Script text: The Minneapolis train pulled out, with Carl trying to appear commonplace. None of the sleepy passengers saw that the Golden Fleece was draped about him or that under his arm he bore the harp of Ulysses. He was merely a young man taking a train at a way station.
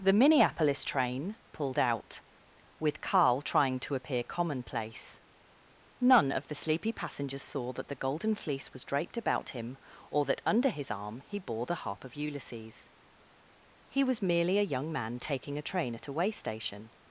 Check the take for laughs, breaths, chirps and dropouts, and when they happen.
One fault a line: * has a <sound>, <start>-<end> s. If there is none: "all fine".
all fine